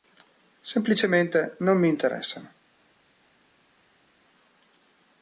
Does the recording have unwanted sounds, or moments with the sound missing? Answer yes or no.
no